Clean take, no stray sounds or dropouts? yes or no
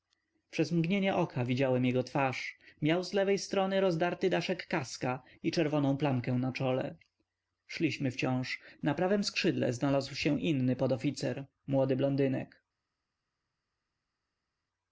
yes